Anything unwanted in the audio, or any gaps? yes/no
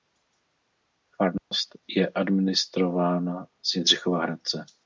yes